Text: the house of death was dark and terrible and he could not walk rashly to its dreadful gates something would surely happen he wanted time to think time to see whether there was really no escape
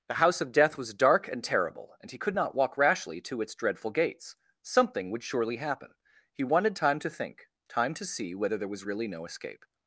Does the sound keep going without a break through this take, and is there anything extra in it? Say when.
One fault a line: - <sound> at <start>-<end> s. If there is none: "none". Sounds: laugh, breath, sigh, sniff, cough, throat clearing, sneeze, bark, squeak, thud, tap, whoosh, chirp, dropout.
none